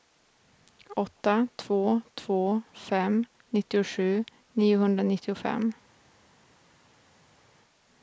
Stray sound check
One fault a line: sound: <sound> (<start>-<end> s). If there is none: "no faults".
no faults